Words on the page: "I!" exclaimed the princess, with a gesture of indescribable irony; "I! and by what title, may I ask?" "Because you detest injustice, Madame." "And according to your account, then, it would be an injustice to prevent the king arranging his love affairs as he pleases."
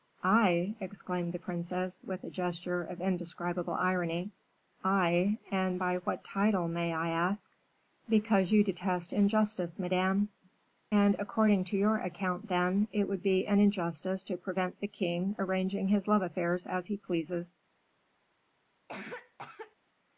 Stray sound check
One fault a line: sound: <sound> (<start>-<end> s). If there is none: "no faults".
sound: cough (18.9-19.8 s)